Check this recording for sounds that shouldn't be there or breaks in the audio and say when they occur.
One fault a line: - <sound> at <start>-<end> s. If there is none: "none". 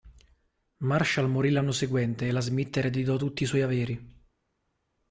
none